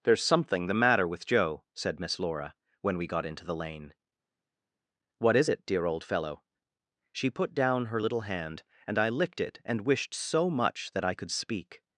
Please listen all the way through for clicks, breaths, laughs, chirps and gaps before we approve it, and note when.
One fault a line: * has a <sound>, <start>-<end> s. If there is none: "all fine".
all fine